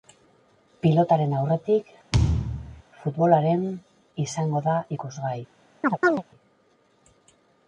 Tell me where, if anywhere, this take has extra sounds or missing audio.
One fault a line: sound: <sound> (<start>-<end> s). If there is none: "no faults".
sound: thud (2.1-2.8 s)
sound: chirp (5.8-6.2 s)